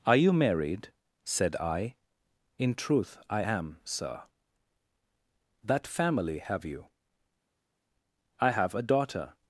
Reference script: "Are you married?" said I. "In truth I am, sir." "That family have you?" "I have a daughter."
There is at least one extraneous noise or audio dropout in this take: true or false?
false